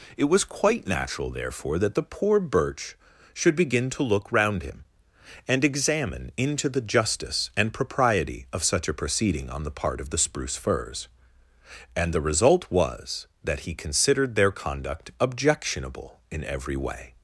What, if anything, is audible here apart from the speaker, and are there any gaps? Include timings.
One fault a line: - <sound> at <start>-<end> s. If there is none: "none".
none